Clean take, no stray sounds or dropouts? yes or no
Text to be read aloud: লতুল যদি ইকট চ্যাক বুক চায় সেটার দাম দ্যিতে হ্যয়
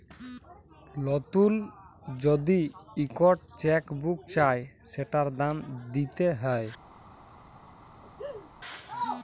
no